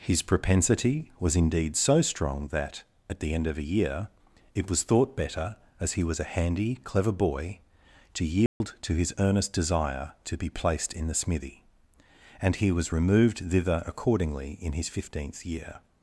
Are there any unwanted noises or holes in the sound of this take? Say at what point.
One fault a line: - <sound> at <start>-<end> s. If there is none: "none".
- dropout at 8.5-8.6 s